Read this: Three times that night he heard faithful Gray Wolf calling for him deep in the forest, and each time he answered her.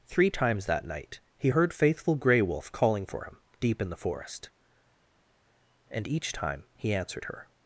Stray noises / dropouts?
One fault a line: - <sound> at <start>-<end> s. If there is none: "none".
none